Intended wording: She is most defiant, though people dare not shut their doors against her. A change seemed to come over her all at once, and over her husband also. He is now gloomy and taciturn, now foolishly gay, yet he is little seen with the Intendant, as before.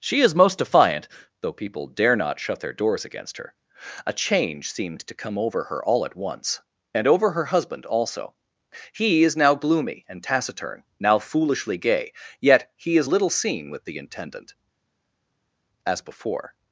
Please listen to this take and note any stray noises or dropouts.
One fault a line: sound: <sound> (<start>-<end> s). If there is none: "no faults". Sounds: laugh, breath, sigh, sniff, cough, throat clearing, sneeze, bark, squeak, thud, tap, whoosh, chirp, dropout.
no faults